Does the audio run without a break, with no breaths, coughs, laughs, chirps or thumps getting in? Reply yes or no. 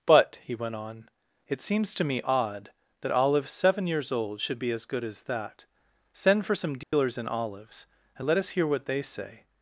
no